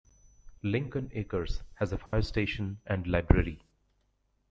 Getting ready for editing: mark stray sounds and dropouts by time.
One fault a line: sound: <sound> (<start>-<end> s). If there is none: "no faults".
sound: dropout (2.1-2.1 s)